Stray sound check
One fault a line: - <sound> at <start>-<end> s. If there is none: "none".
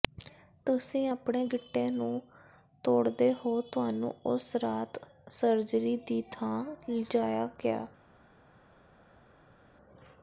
none